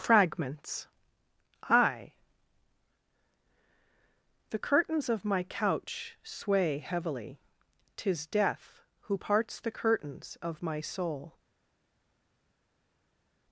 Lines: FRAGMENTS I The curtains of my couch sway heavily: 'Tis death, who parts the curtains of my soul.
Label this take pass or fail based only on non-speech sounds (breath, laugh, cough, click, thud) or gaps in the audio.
pass